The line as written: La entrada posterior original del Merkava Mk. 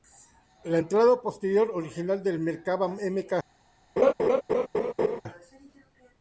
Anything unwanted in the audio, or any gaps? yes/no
yes